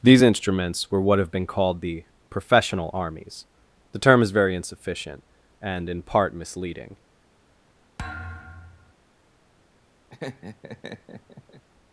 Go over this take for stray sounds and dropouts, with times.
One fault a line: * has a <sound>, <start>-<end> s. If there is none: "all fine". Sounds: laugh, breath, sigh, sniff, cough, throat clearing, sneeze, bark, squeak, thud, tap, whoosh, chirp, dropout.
* has a thud, 8.0-8.9 s
* has a laugh, 10.1-11.6 s